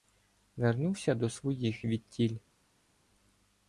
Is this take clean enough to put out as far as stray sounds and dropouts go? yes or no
yes